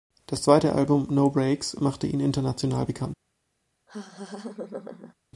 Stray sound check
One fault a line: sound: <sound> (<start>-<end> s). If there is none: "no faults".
sound: laugh (3.9-5.1 s)